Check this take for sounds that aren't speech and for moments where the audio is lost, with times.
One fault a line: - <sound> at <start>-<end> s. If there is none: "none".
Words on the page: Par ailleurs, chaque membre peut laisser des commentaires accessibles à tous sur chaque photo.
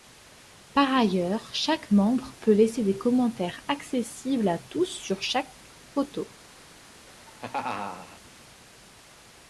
- laugh at 7.1-8.2 s